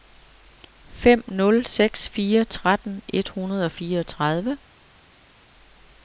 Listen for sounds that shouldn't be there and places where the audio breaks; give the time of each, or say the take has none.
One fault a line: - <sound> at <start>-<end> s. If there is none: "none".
none